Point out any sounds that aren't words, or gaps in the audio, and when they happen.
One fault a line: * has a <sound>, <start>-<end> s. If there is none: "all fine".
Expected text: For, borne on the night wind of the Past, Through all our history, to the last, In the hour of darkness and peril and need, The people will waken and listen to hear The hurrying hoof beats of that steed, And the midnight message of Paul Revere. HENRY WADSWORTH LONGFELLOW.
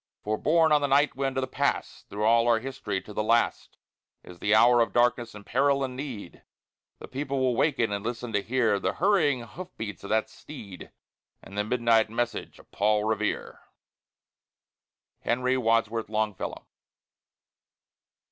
all fine